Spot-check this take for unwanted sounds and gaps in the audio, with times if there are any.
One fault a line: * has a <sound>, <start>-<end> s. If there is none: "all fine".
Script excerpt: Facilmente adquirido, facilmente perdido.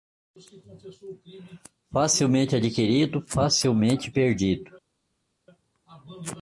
all fine